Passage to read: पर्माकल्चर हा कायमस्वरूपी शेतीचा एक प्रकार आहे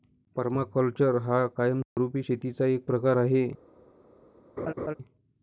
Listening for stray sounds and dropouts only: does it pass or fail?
fail